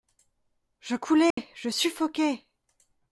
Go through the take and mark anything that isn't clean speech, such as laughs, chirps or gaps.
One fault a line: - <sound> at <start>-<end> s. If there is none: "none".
- dropout at 1.3-1.4 s